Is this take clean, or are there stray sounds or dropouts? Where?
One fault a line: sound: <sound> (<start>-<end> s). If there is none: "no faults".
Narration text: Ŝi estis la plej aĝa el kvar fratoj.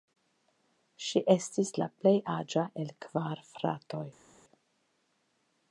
no faults